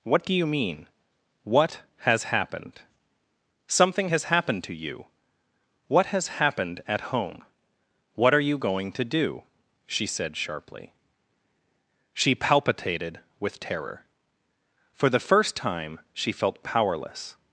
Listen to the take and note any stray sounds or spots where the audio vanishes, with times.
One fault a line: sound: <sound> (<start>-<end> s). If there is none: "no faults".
no faults